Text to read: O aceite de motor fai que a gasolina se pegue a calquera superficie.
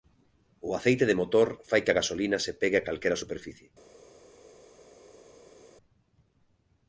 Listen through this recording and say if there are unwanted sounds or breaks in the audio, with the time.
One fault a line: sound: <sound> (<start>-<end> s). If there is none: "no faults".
no faults